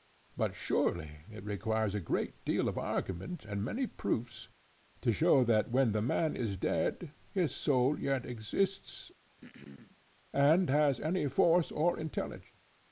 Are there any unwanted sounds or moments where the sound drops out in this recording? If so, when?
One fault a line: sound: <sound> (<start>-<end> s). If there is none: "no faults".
sound: throat clearing (9.4-10.0 s)